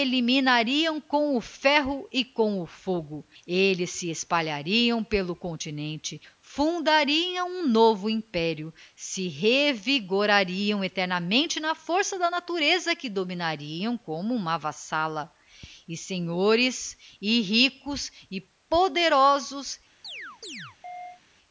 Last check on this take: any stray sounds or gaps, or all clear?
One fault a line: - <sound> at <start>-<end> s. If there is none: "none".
- chirp at 20.0-21.2 s